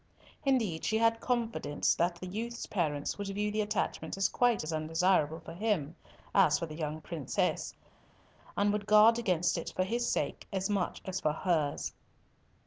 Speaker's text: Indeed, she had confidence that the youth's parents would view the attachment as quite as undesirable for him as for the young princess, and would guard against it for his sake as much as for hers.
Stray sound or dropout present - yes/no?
no